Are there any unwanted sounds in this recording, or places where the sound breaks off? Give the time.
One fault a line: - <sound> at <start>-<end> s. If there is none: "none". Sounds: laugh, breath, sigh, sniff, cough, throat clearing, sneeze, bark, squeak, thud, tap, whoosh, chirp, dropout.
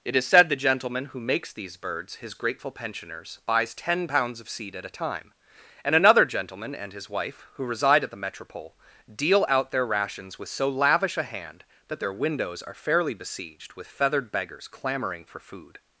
none